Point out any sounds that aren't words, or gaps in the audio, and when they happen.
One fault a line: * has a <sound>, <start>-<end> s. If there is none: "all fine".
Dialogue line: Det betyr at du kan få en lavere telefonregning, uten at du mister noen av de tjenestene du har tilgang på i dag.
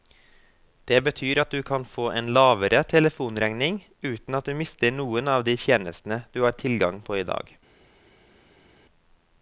all fine